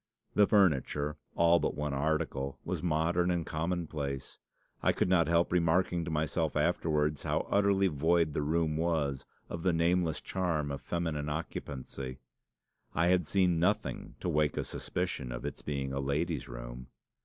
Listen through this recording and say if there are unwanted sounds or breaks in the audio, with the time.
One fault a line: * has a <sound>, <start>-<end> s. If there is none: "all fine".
all fine